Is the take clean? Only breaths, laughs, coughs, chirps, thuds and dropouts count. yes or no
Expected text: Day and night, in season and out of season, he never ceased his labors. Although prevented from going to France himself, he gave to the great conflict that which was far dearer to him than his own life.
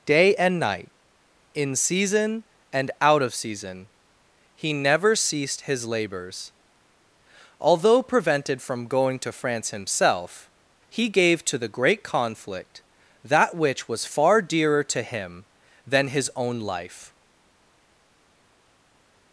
yes